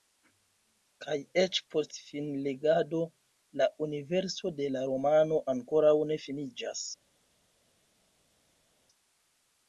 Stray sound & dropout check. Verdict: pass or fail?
pass